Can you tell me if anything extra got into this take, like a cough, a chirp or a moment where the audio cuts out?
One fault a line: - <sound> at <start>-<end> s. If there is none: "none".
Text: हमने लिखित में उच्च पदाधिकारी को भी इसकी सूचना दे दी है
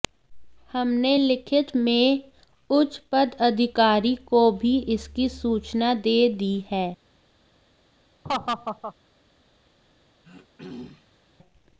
- laugh at 8.2-8.9 s
- throat clearing at 10.2-11.2 s